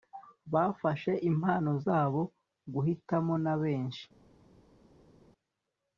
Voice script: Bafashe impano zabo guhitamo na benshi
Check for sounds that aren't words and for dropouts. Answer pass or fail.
pass